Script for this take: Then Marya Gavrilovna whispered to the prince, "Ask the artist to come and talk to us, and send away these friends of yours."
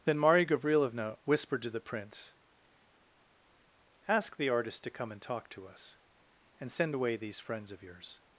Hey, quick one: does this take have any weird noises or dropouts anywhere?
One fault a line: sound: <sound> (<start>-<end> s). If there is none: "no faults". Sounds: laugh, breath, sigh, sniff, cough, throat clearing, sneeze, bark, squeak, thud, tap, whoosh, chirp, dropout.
no faults